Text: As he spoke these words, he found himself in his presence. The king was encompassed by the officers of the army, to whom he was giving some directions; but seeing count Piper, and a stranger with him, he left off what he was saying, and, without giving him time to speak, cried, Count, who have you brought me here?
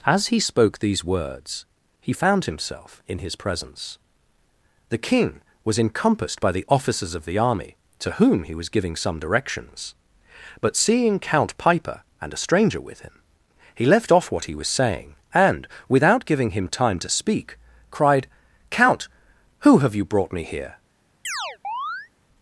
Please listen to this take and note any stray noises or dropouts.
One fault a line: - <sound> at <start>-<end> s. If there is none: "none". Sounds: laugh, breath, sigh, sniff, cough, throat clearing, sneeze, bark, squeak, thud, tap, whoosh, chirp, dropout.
- chirp at 21.2-22.1 s